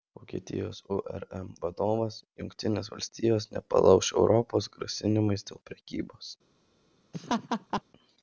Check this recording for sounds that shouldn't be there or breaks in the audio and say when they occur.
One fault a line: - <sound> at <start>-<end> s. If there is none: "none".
- laugh at 7.1-7.8 s